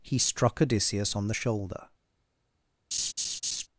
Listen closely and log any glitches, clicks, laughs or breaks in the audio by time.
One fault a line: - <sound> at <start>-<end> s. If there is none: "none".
- laugh at 2.9-3.7 s